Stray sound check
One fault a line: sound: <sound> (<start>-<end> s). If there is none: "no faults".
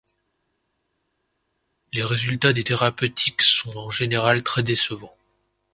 no faults